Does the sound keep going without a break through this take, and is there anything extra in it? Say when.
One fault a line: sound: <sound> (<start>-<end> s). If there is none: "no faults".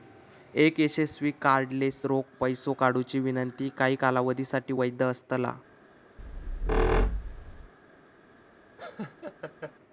sound: squeak (6.2-7.7 s)
sound: laugh (8.8-9.7 s)